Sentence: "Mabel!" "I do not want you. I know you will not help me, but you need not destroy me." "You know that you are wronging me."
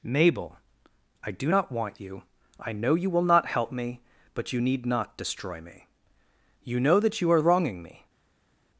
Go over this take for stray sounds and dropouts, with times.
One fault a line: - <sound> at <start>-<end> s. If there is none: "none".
none